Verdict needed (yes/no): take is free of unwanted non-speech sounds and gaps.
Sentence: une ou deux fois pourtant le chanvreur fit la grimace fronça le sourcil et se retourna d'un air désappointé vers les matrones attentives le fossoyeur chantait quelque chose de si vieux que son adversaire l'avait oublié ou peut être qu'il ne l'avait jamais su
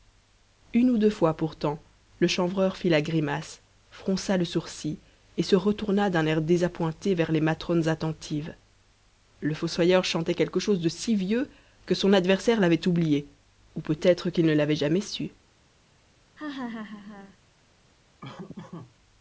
no